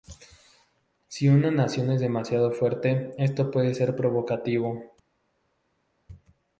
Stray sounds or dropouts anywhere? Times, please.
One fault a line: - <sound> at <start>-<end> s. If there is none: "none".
none